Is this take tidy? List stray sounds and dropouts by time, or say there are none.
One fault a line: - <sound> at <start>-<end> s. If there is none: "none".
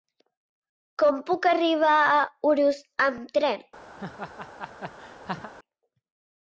- laugh at 4.0-5.5 s